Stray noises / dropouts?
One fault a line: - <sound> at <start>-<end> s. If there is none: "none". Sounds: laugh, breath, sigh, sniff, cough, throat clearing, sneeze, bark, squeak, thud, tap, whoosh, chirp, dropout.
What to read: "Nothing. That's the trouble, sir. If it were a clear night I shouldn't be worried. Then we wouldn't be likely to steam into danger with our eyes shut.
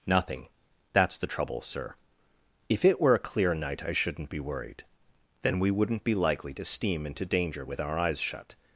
none